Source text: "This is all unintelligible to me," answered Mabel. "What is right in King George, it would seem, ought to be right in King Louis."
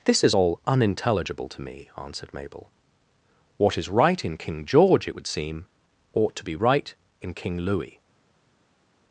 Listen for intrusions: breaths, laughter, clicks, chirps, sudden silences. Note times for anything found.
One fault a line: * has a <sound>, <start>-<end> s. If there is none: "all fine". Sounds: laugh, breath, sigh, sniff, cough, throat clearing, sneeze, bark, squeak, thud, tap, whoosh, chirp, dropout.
all fine